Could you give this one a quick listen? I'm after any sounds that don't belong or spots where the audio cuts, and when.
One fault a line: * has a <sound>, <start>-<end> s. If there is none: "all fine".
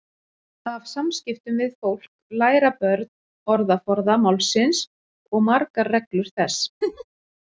* has a laugh, 6.8-7.0 s